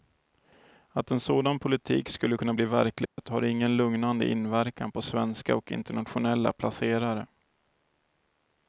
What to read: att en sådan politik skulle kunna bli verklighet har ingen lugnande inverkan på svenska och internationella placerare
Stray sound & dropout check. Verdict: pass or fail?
fail